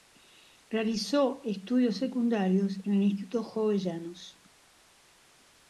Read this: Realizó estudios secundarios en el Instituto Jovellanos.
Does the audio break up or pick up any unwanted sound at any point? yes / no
no